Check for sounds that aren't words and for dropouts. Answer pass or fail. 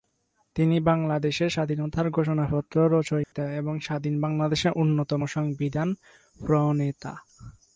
fail